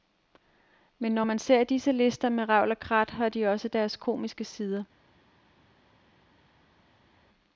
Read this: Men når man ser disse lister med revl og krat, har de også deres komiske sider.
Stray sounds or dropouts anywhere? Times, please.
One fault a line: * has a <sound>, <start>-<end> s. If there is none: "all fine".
all fine